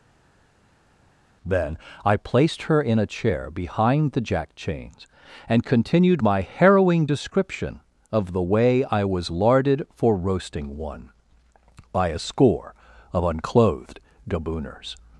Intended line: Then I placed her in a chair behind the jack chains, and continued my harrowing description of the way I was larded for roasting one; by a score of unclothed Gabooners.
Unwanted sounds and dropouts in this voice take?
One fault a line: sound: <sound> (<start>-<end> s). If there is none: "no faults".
no faults